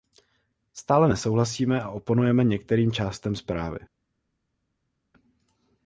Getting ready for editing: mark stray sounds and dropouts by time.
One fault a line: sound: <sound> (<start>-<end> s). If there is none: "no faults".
no faults